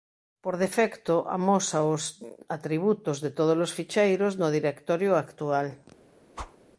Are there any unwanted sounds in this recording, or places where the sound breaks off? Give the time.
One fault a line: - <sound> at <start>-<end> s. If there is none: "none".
- whoosh at 6.3-6.6 s